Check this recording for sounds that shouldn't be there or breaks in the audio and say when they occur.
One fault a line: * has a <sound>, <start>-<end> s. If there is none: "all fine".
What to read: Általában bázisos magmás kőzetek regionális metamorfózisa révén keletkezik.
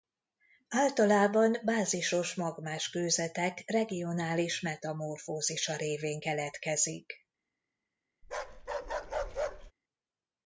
* has a bark, 8.2-9.7 s